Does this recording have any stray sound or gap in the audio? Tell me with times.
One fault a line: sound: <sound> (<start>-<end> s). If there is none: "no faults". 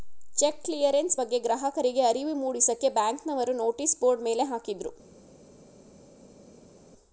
no faults